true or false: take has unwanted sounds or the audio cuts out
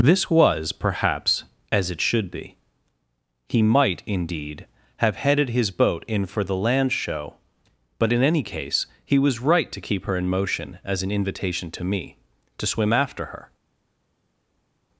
false